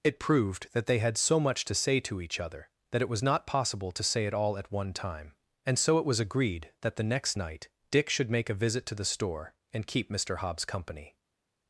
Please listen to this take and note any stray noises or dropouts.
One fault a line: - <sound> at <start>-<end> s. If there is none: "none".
none